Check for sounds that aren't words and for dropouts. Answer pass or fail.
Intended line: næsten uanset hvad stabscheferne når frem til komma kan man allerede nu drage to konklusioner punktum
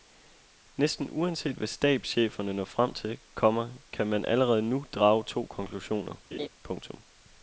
fail